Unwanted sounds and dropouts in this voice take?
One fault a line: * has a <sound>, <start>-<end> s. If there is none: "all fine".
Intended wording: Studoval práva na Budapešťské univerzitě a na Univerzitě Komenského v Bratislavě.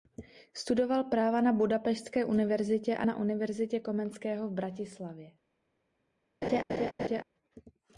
* has a laugh, 6.4-7.2 s